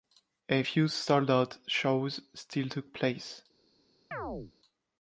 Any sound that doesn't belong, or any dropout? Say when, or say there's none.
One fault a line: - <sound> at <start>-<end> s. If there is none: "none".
- chirp at 4.1-4.5 s